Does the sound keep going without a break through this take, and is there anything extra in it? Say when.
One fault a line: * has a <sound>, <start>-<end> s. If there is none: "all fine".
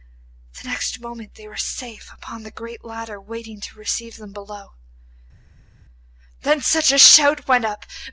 all fine